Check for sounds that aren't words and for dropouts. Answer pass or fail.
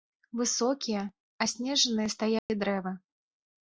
fail